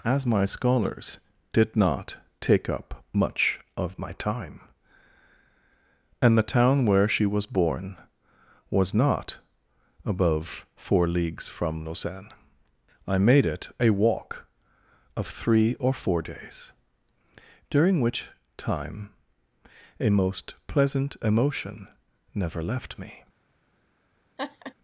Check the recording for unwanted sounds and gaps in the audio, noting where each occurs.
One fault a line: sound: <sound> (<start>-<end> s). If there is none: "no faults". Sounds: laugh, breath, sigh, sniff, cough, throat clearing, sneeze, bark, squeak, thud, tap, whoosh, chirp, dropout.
sound: laugh (24.4-24.7 s)